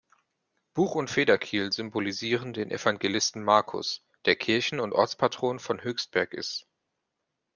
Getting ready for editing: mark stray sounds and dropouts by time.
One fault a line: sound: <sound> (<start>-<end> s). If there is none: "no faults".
no faults